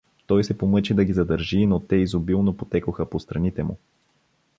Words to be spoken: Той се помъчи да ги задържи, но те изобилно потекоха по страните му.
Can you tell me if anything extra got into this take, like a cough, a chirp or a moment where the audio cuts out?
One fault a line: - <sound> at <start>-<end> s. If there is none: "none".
none